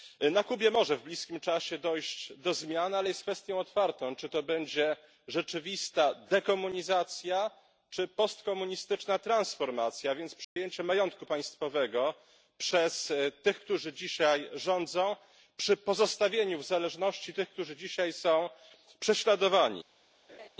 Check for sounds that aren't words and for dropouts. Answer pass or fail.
fail